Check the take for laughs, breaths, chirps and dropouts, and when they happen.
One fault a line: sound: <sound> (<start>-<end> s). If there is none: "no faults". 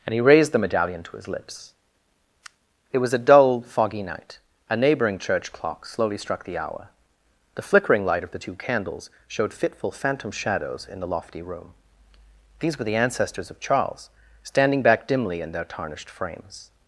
no faults